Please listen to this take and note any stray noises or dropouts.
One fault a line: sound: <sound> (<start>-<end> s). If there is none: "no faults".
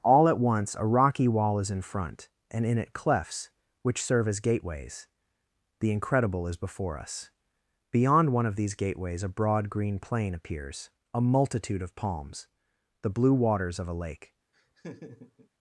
sound: laugh (14.5-15.5 s)